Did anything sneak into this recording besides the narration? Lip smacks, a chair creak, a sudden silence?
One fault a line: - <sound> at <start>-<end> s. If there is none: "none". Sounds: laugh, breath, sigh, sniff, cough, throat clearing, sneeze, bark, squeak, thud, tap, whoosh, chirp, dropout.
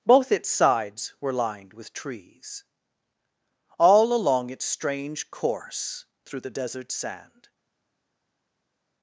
none